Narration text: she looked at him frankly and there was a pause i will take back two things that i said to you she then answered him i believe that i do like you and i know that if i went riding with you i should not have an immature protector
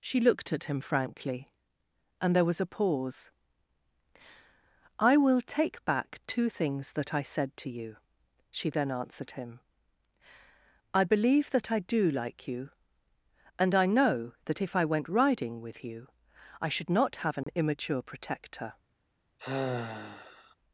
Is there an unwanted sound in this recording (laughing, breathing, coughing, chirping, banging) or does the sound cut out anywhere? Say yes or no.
yes